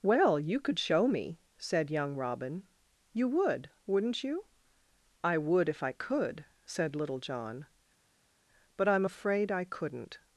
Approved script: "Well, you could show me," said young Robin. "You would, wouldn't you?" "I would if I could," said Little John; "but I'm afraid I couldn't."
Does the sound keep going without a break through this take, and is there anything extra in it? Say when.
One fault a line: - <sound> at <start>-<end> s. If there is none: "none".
none